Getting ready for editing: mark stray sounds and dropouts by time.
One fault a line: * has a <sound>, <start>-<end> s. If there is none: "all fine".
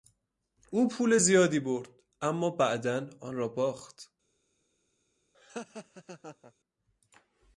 * has a laugh, 5.3-6.5 s